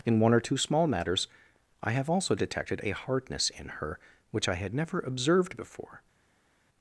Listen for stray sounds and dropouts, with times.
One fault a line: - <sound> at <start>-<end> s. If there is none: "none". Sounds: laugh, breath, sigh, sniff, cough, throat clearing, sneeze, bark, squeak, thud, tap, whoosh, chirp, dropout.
none